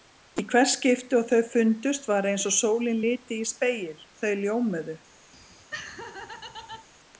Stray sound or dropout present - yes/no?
yes